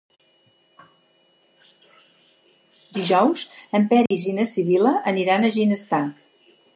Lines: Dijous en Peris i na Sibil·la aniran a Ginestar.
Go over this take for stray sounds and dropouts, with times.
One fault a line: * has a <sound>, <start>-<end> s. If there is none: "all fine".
* has a dropout, 4.1-4.1 s